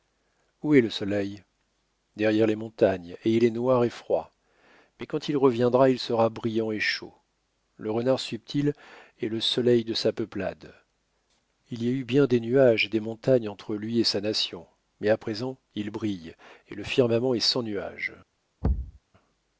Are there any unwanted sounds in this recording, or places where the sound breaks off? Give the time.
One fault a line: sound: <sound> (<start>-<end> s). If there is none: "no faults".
sound: thud (18.6-19.0 s)